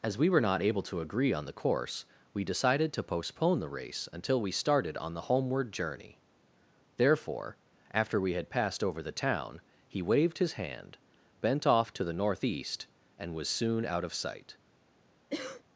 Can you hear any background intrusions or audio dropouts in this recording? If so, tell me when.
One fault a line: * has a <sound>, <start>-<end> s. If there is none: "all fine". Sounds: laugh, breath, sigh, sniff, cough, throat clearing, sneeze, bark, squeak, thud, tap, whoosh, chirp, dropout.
* has a cough, 15.3-15.6 s